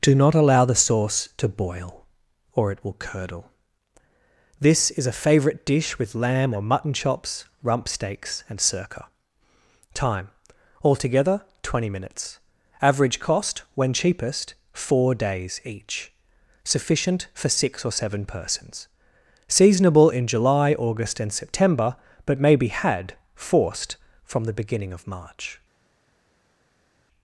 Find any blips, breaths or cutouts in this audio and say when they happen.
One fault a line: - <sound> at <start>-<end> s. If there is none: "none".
none